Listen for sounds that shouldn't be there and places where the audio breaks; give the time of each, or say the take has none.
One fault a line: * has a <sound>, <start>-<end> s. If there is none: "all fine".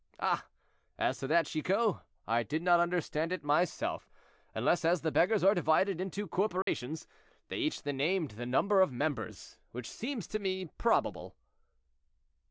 * has a dropout, 6.6-6.7 s